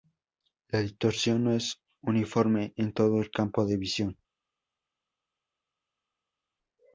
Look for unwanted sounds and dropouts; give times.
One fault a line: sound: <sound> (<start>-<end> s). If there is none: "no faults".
no faults